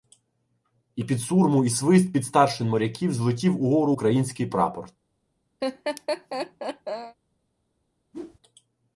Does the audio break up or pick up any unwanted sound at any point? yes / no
yes